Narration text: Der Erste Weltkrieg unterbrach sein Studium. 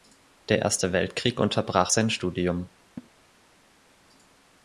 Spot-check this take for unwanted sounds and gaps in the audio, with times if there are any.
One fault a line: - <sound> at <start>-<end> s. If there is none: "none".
- laugh at 3.0-3.1 s